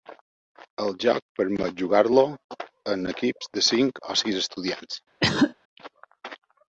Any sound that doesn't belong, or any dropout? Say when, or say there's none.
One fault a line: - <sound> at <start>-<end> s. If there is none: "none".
- cough at 5.2-5.5 s